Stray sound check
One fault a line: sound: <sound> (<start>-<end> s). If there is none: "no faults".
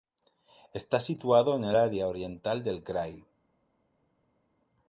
no faults